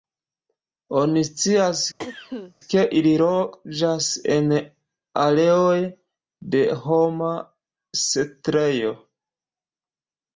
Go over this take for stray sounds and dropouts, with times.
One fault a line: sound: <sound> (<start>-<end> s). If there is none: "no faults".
sound: cough (2.0-2.5 s)